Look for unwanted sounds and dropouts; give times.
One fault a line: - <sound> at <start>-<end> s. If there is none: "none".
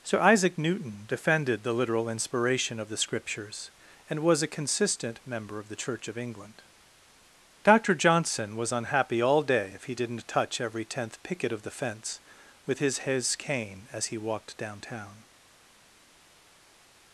none